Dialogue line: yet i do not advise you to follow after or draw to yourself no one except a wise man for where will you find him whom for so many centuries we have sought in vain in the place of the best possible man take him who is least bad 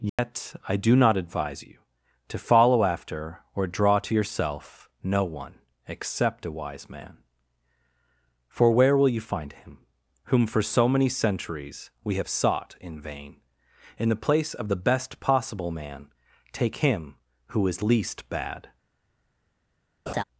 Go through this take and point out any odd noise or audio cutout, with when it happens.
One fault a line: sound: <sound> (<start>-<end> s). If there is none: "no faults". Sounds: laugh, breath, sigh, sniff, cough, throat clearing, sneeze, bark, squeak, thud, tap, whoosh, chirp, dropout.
sound: dropout (0.1-0.2 s)
sound: laugh (20.1-20.2 s)